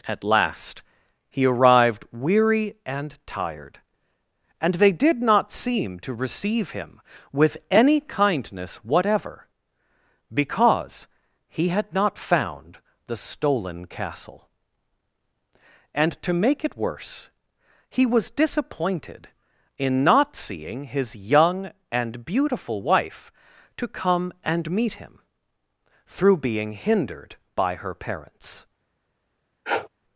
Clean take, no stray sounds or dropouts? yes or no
no